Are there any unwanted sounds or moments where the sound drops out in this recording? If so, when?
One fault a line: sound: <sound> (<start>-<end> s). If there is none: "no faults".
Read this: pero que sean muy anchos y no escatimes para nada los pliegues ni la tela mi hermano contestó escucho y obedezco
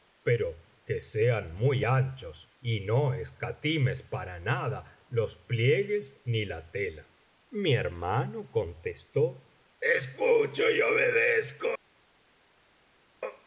no faults